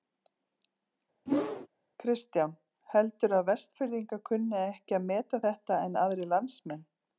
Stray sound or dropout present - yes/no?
yes